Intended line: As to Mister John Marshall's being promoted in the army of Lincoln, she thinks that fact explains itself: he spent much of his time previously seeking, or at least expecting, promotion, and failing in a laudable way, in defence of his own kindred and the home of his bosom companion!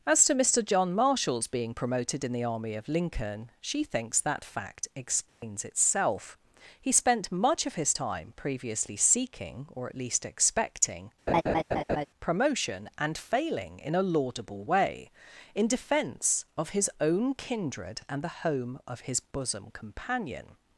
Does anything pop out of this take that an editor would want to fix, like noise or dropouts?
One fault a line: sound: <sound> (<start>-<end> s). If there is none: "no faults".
sound: dropout (5.3-5.4 s)
sound: laugh (11.3-12.1 s)